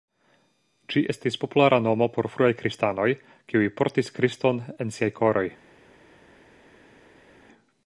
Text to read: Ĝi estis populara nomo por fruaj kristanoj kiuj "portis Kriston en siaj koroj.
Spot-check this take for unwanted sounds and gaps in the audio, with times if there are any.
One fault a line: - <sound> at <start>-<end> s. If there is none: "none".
none